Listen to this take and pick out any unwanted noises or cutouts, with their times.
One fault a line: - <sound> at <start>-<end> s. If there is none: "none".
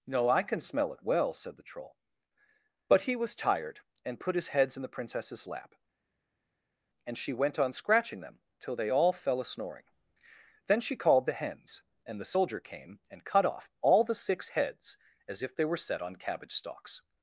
none